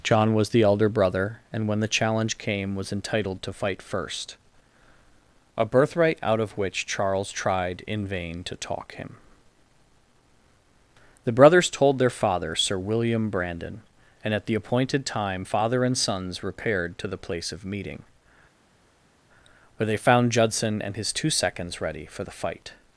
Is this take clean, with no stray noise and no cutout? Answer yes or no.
yes